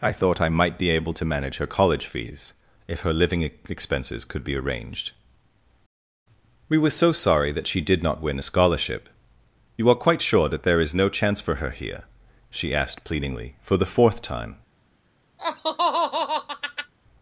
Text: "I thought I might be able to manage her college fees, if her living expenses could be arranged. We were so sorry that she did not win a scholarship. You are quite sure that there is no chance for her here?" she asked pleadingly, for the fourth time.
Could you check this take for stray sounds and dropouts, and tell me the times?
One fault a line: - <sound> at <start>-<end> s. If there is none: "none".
- laugh at 15.4-16.9 s